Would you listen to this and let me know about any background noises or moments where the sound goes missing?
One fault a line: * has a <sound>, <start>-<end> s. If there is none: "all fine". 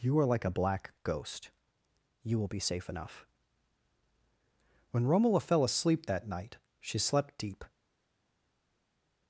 all fine